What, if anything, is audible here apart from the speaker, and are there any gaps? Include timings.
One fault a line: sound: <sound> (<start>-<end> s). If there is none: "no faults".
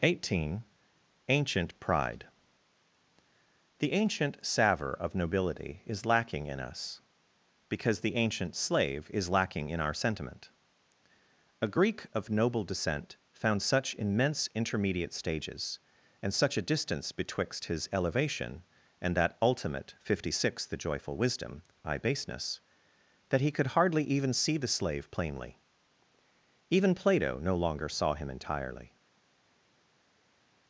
no faults